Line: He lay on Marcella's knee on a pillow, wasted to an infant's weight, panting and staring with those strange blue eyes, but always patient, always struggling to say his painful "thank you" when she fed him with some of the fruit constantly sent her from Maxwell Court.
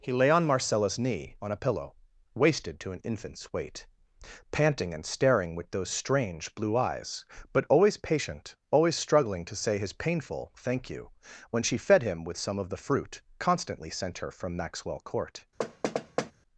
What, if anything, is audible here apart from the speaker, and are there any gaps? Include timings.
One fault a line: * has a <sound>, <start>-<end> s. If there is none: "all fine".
* has a thud, 15.6-16.3 s